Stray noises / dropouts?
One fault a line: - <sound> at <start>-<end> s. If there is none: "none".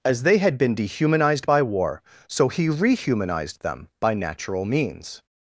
none